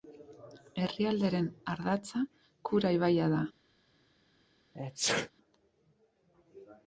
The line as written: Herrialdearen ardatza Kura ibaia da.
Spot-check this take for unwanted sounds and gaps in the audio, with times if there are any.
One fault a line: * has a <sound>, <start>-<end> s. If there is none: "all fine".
* has a sneeze, 4.7-5.3 s